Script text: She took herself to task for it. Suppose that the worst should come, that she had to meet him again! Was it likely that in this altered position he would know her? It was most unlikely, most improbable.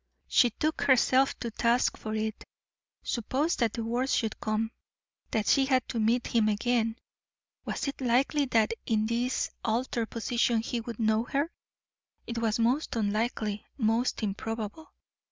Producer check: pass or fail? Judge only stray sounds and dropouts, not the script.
pass